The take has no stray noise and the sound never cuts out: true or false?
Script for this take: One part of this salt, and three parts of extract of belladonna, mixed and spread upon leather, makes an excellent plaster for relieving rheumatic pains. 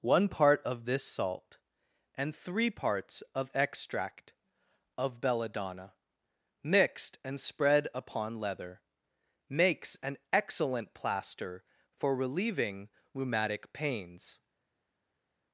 true